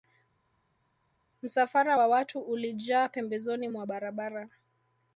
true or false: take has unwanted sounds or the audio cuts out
false